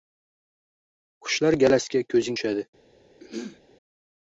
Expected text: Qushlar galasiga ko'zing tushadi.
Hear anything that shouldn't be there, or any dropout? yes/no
yes